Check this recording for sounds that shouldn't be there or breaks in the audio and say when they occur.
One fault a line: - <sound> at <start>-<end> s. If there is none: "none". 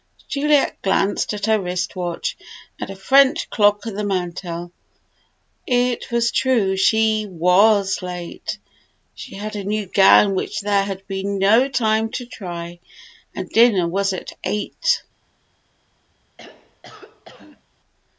- throat clearing at 16.4-17.6 s